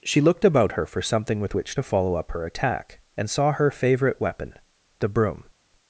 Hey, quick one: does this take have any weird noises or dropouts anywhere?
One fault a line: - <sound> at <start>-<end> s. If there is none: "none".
none